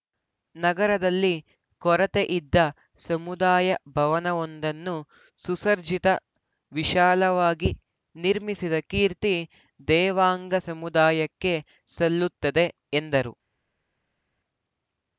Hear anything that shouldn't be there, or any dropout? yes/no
no